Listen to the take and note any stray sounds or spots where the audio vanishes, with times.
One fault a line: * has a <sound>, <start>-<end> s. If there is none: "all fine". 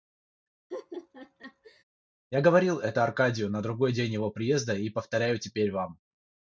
* has a laugh, 0.7-1.8 s